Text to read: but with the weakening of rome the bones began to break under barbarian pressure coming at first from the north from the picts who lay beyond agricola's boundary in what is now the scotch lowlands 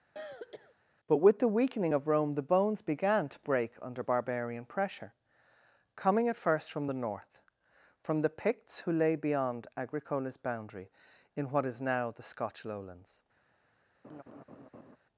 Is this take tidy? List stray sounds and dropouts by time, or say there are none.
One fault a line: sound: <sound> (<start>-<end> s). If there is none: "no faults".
sound: throat clearing (0.2-0.7 s)
sound: laugh (14.0-15.0 s)